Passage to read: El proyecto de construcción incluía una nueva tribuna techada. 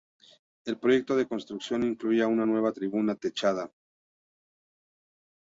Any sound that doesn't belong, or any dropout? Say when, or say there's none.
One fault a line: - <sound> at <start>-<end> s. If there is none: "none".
none